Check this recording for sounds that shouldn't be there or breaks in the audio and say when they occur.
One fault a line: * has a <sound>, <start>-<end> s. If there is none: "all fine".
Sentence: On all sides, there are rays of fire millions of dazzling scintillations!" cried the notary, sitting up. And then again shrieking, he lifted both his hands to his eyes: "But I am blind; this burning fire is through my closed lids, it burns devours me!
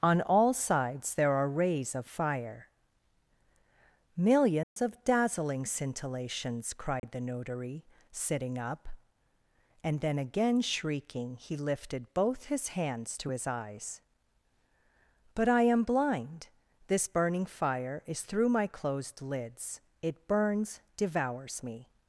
* has a dropout, 4.6-4.8 s
* has a dropout, 7.0-7.0 s